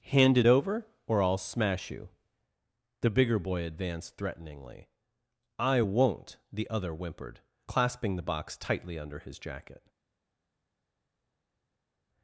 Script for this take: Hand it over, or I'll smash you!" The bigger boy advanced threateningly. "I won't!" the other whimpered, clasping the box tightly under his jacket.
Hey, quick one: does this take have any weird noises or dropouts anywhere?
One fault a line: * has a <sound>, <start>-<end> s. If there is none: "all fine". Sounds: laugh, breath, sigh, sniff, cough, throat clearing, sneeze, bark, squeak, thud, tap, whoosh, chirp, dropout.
all fine